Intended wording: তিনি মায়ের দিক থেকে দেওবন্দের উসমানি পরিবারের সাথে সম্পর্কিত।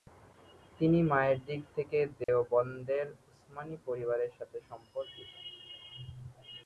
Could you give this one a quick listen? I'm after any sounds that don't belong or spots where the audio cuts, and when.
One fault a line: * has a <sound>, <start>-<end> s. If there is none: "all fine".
* has a dropout, 2.2-2.3 s